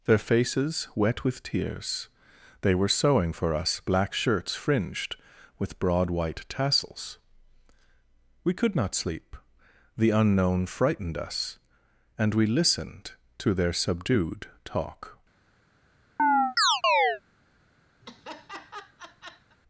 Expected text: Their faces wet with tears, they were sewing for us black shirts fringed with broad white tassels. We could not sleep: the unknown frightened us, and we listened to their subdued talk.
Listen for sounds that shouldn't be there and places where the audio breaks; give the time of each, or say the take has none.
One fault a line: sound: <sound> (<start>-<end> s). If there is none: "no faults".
sound: chirp (16.2-17.2 s)
sound: laugh (18.0-19.6 s)